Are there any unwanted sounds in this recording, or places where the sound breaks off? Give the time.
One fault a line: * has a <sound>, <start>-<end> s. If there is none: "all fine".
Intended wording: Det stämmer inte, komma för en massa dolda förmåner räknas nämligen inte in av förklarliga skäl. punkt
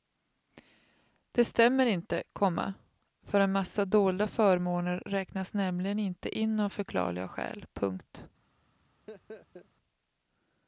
* has a laugh, 9.1-9.7 s